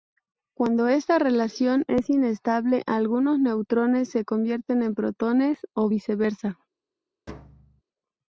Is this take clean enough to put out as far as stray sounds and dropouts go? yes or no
no